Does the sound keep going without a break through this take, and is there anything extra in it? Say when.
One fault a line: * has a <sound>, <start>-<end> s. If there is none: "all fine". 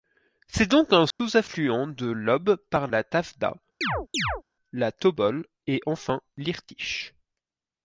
* has a dropout, 1.1-1.2 s
* has a chirp, 3.8-4.4 s